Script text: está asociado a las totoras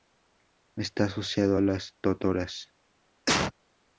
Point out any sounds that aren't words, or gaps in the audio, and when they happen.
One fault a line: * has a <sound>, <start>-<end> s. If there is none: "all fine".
* has a cough, 3.3-3.5 s